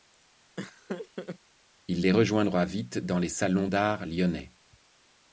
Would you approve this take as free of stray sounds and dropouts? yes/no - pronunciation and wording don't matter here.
no